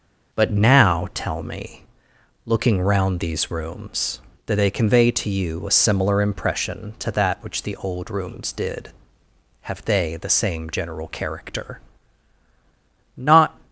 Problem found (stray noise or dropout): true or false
false